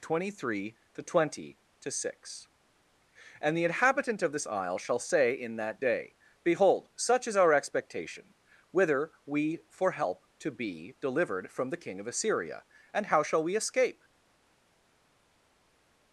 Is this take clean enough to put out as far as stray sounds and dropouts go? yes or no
yes